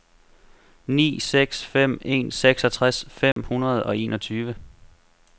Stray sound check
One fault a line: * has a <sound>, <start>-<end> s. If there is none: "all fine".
* has a dropout, 3.3-3.4 s